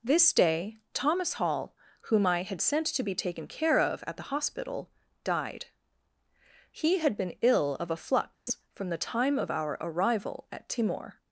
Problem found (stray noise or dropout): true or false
true